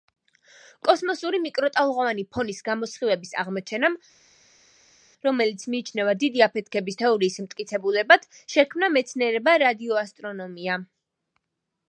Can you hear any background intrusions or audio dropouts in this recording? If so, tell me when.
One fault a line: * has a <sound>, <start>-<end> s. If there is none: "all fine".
all fine